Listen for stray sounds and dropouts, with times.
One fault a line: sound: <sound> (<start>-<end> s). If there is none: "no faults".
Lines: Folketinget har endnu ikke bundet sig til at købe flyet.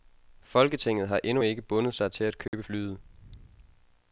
sound: dropout (2.5-2.5 s)